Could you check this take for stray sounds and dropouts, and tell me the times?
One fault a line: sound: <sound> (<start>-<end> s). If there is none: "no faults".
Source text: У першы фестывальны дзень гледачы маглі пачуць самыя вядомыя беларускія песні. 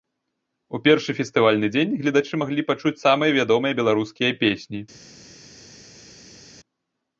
no faults